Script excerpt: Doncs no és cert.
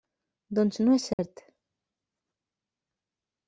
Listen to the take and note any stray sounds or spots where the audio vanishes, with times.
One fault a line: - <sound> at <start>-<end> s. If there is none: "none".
- dropout at 1.1-1.2 s